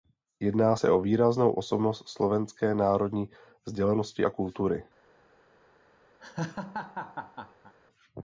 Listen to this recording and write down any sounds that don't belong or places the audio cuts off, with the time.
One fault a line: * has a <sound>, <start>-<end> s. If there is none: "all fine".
* has a laugh, 6.2-7.7 s